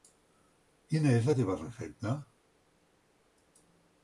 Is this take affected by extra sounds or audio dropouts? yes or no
no